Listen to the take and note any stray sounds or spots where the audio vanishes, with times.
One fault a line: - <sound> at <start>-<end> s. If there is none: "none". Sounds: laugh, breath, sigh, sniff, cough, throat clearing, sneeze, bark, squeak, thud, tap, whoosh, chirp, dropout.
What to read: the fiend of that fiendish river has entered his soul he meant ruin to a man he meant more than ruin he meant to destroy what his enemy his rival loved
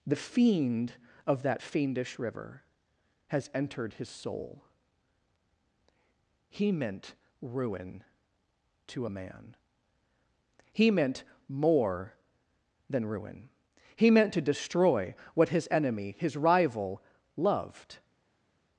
none